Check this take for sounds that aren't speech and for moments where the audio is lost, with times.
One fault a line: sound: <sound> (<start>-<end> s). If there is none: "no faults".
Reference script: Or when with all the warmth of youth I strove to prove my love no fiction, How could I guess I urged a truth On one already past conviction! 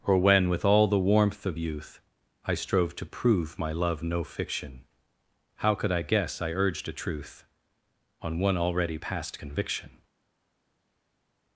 no faults